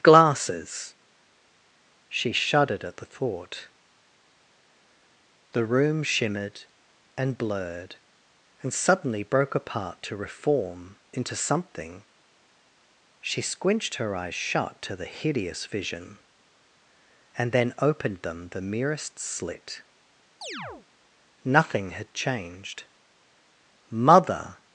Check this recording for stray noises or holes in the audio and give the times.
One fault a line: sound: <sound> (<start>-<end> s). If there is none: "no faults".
sound: chirp (20.4-20.9 s)